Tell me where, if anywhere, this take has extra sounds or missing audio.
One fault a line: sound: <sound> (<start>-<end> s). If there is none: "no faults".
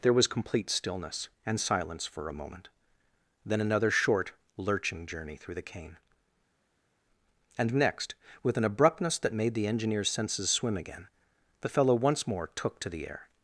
no faults